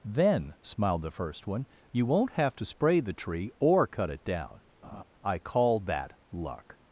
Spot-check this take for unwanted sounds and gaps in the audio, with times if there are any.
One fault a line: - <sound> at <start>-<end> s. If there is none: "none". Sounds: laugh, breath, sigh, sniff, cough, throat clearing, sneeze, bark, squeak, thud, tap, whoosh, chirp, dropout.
- laugh at 4.8-5.0 s